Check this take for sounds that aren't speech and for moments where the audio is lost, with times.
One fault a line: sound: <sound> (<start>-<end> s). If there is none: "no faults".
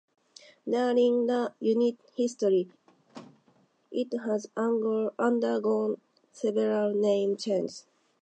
sound: squeak (2.9-3.7 s)